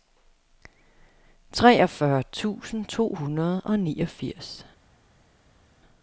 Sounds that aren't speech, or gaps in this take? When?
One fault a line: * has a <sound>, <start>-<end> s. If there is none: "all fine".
all fine